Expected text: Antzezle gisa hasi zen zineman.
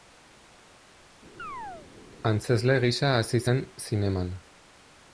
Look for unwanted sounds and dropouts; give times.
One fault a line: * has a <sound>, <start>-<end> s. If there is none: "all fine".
* has a chirp, 1.4-1.9 s